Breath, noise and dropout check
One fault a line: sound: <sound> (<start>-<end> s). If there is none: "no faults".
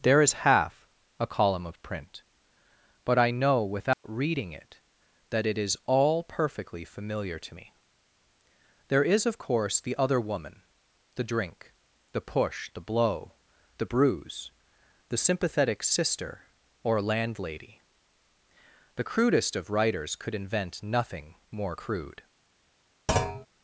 sound: dropout (3.9-4.0 s)
sound: thud (23.1-23.5 s)